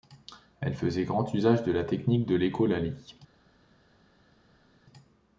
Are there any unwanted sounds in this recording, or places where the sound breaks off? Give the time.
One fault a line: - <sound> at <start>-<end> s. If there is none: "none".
none